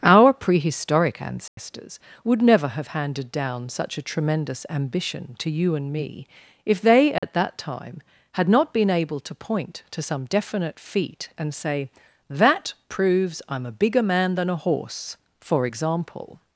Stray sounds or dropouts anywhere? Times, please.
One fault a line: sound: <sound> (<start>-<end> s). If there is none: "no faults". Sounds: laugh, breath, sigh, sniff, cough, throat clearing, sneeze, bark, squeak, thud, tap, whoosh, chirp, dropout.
sound: dropout (1.5-1.6 s)
sound: dropout (7.2-7.2 s)